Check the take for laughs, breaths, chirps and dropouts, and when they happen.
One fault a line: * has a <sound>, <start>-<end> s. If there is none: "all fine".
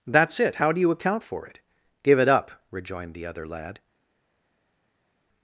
all fine